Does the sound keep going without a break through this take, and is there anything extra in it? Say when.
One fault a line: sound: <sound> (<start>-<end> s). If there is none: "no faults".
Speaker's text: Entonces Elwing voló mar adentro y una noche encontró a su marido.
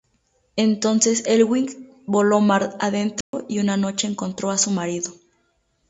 sound: dropout (3.2-3.3 s)